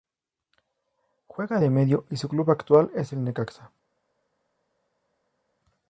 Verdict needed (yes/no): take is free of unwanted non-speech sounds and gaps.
yes